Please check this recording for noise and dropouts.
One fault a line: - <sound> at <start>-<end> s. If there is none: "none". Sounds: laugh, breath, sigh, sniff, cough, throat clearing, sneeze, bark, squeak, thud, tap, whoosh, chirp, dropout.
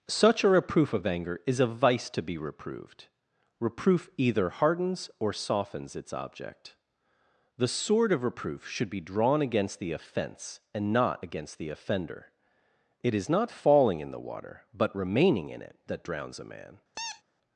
- squeak at 16.9-17.2 s